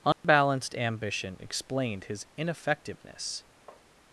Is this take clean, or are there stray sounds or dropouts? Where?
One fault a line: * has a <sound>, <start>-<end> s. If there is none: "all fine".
* has a dropout, 0.1-0.2 s
* has a tap, 3.7-3.9 s